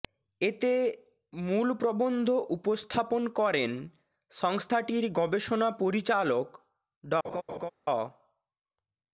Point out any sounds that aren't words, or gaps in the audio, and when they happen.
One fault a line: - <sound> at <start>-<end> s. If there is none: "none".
- laugh at 7.2-7.7 s